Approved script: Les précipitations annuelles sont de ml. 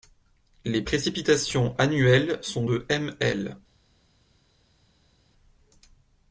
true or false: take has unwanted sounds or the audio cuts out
false